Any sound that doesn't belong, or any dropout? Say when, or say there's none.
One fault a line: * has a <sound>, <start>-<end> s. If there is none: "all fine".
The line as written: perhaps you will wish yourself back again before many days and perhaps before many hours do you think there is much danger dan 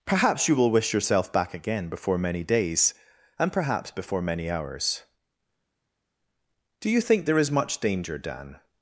all fine